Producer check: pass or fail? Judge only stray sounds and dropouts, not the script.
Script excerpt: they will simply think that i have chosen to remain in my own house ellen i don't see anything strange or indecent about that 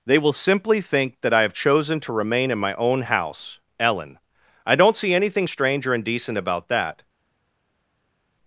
pass